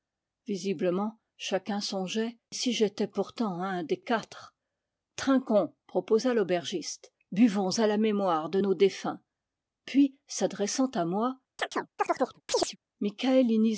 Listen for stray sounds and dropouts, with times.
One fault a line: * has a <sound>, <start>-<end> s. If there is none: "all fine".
* has a chirp, 11.6-12.8 s